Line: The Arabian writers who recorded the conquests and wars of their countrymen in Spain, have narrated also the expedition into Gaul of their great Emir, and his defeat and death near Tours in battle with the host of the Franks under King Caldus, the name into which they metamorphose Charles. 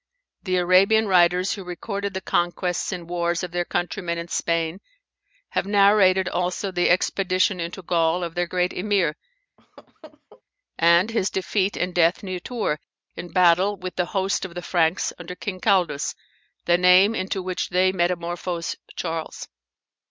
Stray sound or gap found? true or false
true